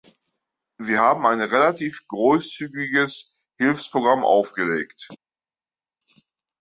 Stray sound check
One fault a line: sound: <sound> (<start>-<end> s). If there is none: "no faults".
no faults